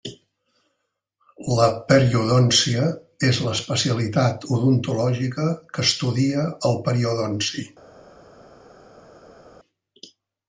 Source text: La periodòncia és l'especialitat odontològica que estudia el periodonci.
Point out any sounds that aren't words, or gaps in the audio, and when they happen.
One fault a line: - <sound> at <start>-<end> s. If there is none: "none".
none